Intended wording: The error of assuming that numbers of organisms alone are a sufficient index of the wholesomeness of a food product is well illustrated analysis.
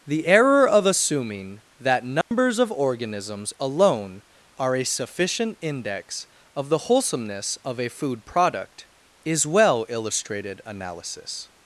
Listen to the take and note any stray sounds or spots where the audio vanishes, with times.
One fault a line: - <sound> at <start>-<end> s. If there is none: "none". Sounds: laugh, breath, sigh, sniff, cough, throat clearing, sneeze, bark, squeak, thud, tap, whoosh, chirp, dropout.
- dropout at 2.2-2.3 s